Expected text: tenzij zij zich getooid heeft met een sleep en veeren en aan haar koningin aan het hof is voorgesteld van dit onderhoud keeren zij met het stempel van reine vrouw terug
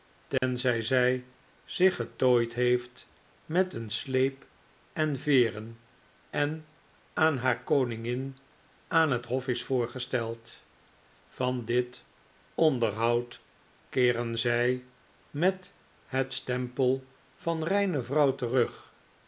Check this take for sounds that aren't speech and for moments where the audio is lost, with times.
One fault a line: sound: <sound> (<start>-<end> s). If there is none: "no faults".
sound: dropout (0.4-0.4 s)